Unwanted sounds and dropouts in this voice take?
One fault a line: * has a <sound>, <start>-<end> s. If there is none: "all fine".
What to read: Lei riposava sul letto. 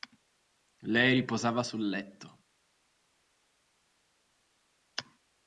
all fine